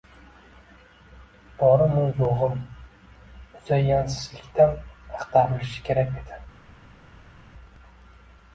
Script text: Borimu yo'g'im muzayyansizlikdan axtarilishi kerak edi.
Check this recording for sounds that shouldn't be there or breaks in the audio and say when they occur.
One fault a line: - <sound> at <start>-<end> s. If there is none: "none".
none